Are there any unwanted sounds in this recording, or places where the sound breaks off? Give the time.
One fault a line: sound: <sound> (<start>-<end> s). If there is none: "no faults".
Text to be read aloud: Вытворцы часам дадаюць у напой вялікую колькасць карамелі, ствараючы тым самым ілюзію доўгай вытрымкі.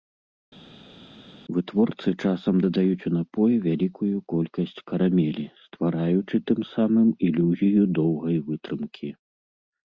no faults